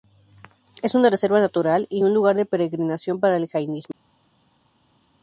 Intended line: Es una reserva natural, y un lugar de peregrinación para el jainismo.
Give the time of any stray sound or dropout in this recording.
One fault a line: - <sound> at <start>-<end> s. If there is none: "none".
none